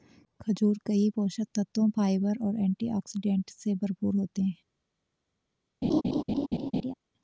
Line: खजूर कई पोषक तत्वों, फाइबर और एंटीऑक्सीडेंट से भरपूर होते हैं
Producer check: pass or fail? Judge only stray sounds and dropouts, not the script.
fail